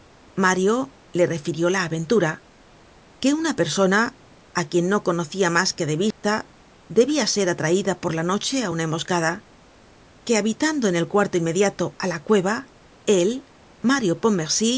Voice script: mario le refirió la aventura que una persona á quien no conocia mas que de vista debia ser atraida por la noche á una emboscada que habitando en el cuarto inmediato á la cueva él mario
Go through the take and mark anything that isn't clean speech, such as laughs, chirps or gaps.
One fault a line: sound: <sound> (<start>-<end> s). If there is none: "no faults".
sound: dropout (6.1-6.2 s)